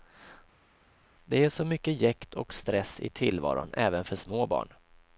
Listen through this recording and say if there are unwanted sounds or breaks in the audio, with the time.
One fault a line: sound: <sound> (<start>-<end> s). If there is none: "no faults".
no faults